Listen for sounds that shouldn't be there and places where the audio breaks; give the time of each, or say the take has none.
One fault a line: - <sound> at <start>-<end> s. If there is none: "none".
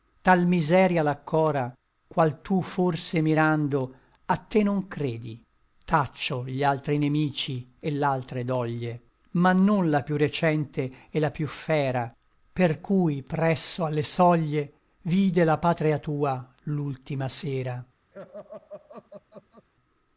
- laugh at 18.1-19.7 s